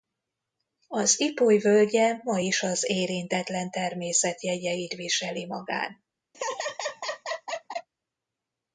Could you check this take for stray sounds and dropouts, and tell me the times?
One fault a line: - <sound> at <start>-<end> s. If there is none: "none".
- laugh at 6.3-7.9 s